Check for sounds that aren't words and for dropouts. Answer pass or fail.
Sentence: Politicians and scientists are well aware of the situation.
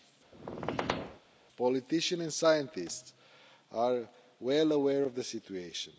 fail